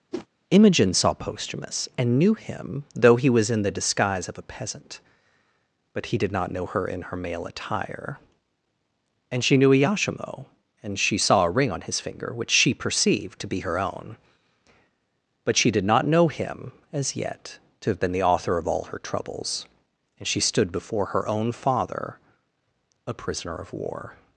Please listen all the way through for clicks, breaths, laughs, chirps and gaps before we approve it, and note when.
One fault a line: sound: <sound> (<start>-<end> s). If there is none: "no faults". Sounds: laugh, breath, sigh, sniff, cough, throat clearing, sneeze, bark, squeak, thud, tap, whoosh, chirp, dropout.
sound: whoosh (0.1-0.3 s)